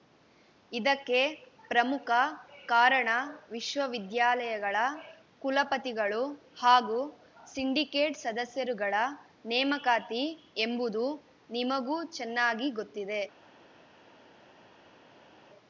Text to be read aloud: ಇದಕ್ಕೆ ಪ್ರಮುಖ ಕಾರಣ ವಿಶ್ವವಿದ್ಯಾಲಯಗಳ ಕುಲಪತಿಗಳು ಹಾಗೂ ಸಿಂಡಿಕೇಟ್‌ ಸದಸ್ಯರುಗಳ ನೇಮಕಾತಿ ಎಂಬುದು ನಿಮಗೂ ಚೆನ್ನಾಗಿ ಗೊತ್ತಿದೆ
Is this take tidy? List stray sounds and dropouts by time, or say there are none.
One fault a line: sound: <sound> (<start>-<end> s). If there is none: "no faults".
no faults